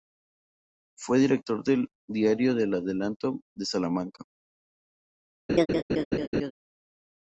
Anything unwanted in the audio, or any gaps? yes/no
yes